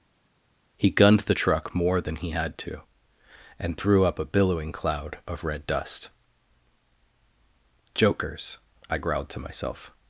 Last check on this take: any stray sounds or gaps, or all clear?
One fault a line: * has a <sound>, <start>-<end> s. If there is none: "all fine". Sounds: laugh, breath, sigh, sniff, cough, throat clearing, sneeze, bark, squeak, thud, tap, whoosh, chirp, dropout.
all fine